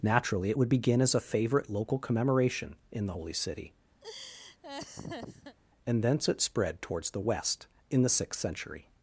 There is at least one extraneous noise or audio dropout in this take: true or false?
true